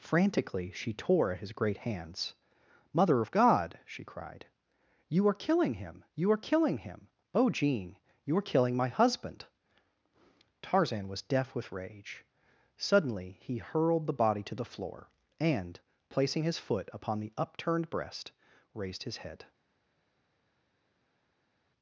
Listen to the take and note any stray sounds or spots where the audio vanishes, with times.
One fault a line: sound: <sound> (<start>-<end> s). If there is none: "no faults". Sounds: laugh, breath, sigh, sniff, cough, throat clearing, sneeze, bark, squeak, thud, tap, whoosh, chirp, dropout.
no faults